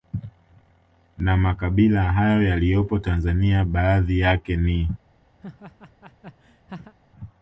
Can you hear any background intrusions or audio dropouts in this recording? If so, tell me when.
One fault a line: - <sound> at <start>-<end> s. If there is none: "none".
- laugh at 5.4-6.9 s